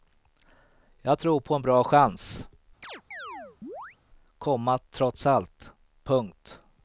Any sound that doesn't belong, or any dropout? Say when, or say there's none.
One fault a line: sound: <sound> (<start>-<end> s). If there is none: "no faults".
sound: chirp (2.8-4.0 s)